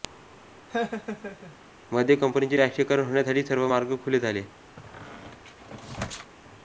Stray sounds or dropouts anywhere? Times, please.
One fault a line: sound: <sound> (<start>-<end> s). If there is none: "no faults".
sound: laugh (0.7-1.6 s)
sound: squeak (4.8-6.3 s)